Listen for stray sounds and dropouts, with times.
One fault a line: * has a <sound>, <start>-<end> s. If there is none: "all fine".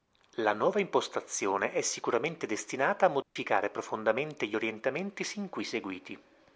* has a dropout, 3.2-3.4 s